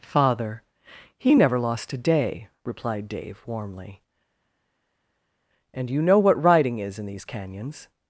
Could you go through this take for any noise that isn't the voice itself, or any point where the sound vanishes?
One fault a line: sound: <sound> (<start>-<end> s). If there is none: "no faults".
no faults